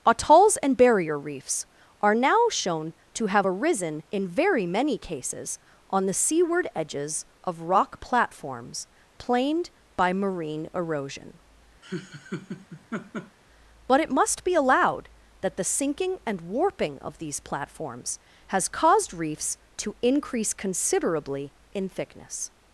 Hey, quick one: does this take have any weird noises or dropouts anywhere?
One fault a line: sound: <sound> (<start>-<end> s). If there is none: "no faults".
sound: laugh (11.8-13.4 s)